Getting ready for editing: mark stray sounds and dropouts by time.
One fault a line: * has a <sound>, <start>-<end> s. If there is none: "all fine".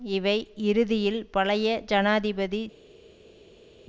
all fine